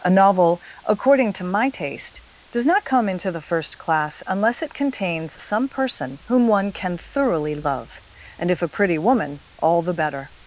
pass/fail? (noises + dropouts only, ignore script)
pass